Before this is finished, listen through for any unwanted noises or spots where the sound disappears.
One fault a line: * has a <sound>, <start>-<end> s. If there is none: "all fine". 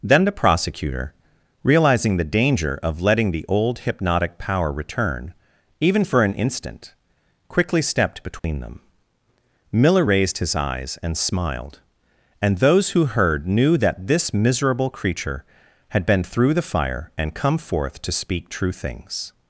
* has a dropout, 8.4-8.4 s